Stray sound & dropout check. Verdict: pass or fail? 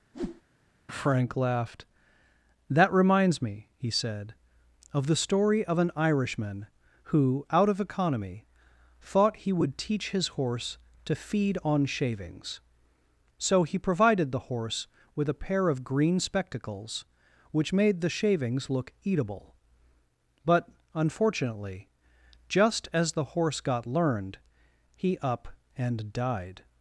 fail